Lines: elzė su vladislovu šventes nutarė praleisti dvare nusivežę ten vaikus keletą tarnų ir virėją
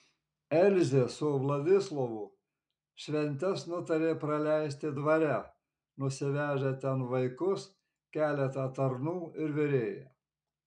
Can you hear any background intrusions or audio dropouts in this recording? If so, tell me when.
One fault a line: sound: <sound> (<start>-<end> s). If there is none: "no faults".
no faults